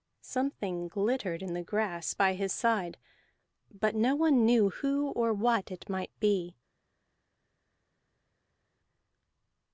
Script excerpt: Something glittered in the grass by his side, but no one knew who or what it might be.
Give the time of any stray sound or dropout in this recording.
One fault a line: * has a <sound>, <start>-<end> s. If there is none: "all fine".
all fine